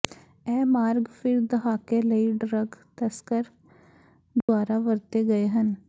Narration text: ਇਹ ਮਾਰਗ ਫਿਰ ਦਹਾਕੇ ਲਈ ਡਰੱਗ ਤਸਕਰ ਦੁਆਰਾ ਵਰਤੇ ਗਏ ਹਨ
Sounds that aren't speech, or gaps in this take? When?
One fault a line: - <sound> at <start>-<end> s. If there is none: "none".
- dropout at 4.4-4.5 s